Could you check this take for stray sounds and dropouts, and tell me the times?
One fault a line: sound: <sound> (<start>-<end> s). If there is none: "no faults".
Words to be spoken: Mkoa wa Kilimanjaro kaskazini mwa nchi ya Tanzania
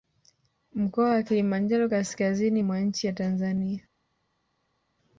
no faults